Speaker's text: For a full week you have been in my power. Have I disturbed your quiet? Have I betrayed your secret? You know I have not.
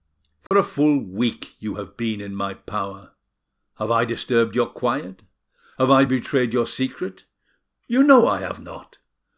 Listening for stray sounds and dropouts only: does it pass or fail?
fail